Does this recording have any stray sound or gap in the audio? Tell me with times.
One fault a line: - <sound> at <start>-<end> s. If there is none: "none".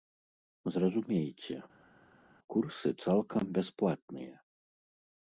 none